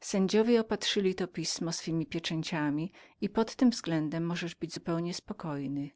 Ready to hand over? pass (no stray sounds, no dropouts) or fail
pass